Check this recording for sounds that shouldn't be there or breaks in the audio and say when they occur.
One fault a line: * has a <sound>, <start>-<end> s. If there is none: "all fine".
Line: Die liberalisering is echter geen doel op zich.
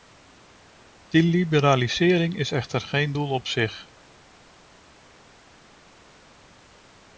all fine